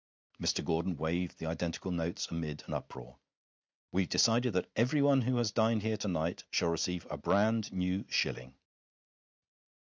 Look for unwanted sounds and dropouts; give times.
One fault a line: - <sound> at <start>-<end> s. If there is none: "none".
none